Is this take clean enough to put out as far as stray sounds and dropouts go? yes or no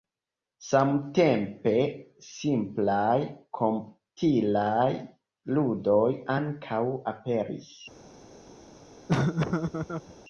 no